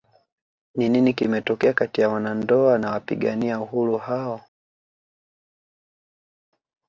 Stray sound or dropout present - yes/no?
no